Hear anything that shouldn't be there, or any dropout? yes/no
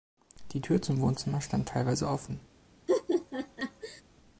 yes